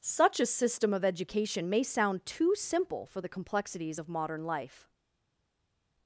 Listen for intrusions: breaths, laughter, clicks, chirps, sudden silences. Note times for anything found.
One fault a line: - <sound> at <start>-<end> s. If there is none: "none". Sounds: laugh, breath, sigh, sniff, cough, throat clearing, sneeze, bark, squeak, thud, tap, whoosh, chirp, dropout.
none